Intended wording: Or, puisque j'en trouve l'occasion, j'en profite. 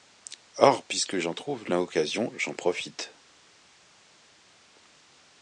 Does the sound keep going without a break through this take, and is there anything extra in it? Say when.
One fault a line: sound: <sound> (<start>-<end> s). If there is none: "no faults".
no faults